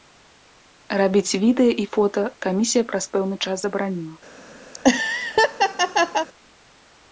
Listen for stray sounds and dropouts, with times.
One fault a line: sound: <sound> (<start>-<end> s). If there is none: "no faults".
sound: laugh (4.7-6.3 s)